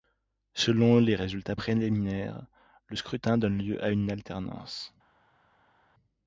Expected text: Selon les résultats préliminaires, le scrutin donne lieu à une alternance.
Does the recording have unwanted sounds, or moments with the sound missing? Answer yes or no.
no